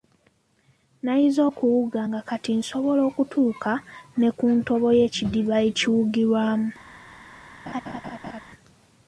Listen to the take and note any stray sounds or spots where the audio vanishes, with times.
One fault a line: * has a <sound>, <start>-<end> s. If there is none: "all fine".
* has a laugh, 7.7-8.4 s